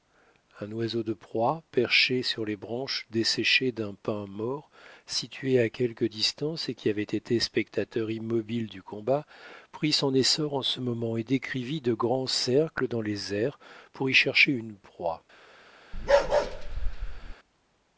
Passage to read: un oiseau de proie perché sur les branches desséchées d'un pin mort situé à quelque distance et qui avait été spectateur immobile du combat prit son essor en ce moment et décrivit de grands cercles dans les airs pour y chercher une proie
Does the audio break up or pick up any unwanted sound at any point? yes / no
yes